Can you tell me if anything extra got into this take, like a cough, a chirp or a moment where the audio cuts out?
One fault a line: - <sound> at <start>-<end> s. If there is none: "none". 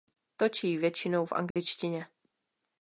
- dropout at 1.5-1.6 s